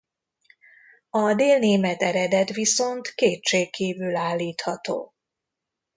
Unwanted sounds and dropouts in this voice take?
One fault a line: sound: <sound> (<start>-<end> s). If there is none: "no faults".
no faults